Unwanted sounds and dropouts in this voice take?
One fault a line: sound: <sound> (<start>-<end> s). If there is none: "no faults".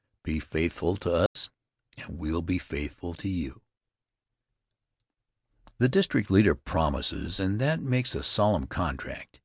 sound: dropout (1.3-1.4 s)